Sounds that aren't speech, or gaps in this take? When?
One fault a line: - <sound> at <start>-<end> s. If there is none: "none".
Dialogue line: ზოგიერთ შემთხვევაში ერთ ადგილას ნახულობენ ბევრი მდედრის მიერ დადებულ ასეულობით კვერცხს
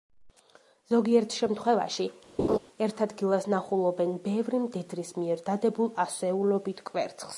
- laugh at 2.4-2.6 s